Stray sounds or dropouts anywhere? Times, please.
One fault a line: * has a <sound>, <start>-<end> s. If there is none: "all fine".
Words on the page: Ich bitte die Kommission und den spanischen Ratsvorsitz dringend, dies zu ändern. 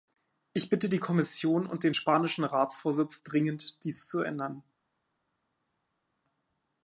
all fine